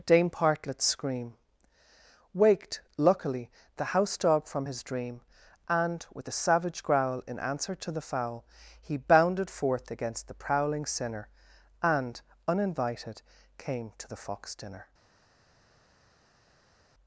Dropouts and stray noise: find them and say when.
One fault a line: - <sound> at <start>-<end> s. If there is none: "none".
none